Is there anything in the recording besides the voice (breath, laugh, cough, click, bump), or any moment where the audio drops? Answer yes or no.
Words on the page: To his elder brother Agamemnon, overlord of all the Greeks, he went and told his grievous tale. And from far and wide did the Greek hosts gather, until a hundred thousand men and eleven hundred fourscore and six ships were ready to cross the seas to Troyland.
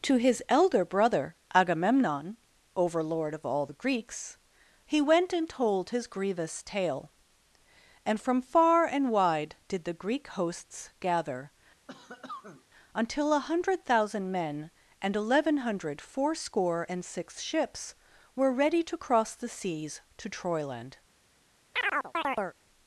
yes